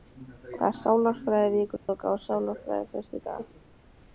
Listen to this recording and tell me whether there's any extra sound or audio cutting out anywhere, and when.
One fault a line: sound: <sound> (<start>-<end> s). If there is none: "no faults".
sound: dropout (1.8-1.9 s)